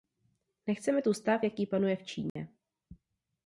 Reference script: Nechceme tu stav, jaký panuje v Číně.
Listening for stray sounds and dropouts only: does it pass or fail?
fail